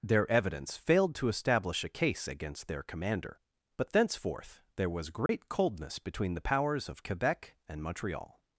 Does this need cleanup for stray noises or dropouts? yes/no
yes